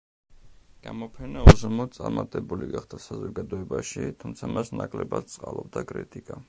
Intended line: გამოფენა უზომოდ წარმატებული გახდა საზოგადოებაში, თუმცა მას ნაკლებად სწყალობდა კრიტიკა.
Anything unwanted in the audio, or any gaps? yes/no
no